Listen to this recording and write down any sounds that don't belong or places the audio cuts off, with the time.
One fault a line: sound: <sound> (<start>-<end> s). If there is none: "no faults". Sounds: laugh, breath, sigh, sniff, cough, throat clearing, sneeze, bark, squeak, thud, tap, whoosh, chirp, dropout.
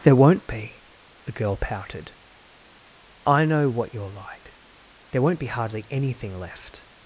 no faults